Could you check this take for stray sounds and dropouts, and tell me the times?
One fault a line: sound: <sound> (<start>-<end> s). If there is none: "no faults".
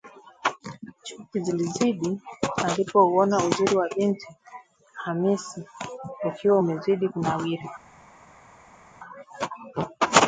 no faults